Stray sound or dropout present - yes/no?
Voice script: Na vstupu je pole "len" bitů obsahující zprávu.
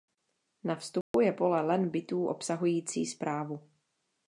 yes